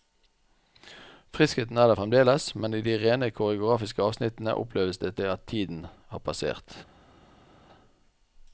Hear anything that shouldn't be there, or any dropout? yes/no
no